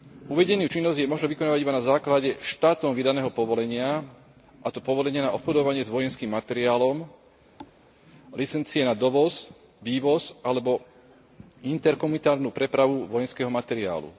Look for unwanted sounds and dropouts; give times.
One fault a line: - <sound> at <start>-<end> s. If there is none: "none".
- thud at 7.6-7.8 s